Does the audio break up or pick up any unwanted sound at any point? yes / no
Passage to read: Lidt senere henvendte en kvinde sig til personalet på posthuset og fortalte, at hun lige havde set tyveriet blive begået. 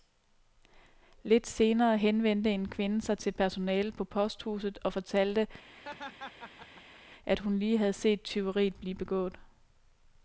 yes